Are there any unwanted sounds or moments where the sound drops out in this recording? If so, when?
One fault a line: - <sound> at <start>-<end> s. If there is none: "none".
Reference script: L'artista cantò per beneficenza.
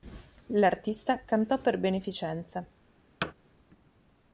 - thud at 3.2-3.3 s